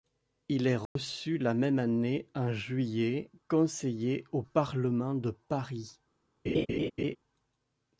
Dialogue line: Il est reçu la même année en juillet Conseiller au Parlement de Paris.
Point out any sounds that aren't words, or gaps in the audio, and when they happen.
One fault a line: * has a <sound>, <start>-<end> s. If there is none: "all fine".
* has a dropout, 0.9-1.0 s
* has a laugh, 6.5-7.2 s